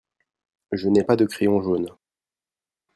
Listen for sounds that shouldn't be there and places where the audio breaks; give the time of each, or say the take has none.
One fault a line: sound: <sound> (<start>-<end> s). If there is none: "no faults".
no faults